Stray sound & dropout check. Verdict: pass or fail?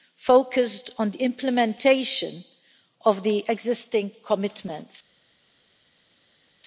pass